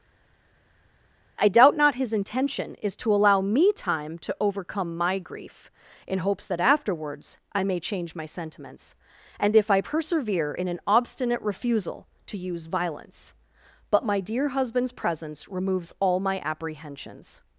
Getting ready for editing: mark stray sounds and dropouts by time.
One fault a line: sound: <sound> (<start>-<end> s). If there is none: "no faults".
no faults